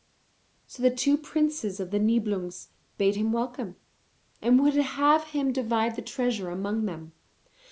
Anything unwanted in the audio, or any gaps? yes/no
no